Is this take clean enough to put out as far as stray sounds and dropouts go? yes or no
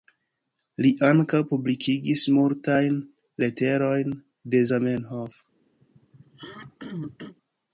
no